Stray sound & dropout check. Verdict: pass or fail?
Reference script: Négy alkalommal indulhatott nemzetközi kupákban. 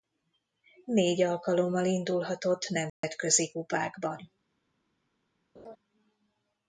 fail